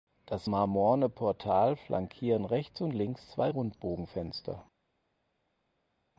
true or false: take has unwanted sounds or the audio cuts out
false